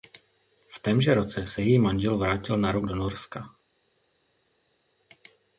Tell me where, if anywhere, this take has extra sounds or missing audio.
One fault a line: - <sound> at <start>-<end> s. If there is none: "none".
none